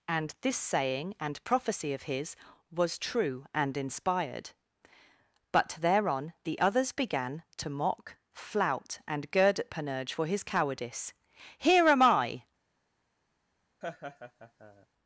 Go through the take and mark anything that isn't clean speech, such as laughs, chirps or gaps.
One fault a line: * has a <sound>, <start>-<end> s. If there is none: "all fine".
* has a laugh, 13.8-14.9 s